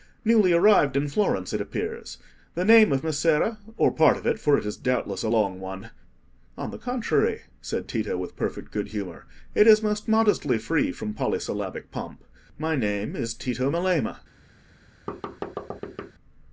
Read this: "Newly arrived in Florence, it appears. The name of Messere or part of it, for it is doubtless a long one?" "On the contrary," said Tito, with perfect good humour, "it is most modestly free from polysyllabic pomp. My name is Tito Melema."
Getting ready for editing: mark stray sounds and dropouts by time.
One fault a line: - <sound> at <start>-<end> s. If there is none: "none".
- thud at 15.1-16.1 s